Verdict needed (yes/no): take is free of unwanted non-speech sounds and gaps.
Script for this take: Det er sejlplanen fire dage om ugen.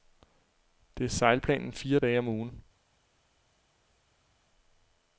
yes